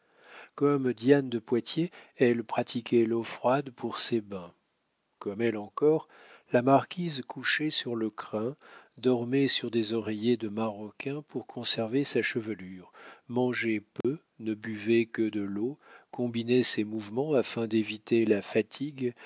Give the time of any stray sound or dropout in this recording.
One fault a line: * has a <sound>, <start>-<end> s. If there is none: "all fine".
* has a dropout, 14.0-14.0 s